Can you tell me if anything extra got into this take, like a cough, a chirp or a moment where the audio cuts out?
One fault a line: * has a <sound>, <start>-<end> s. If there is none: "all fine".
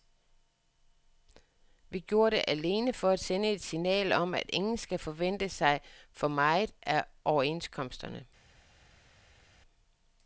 all fine